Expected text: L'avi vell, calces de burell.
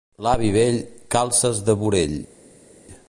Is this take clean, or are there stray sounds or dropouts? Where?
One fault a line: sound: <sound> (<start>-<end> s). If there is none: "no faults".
no faults